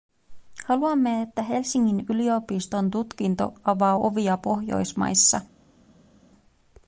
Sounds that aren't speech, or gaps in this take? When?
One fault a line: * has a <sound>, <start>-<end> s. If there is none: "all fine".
all fine